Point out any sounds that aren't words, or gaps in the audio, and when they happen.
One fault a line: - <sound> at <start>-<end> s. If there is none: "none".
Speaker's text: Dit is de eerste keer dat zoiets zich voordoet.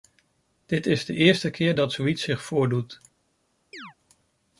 - chirp at 3.7-3.9 s